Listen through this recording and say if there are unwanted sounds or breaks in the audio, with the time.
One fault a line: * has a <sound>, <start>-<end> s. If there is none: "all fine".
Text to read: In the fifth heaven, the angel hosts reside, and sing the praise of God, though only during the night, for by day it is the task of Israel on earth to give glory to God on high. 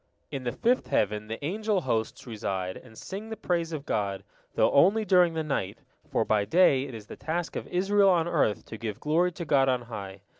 all fine